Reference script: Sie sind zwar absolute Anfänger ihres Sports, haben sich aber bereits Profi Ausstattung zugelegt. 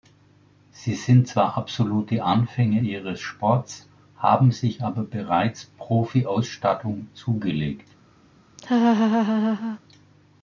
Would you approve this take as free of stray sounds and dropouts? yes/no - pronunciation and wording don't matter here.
no